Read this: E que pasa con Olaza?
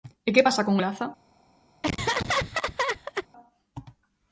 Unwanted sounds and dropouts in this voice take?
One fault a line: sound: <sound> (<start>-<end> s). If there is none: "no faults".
sound: laugh (1.8-3.3 s)